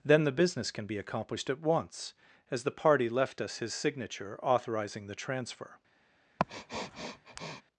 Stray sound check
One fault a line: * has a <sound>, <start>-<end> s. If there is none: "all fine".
* has a sniff, 6.4-7.6 s